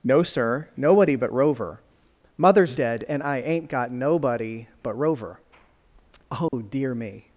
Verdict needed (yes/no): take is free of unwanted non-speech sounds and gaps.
no